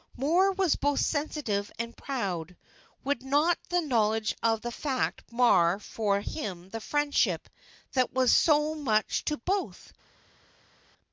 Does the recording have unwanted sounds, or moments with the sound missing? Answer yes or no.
no